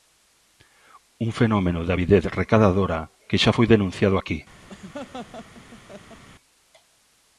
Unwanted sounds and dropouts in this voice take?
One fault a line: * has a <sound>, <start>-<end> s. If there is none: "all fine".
* has a laugh, 4.7-6.2 s